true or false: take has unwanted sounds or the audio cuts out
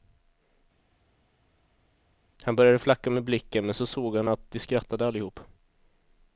false